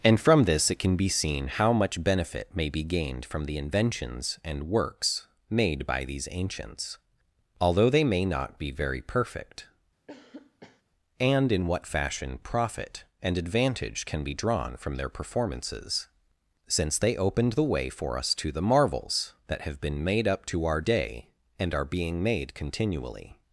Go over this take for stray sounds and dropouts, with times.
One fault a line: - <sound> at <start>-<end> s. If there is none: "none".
- cough at 10.1-10.8 s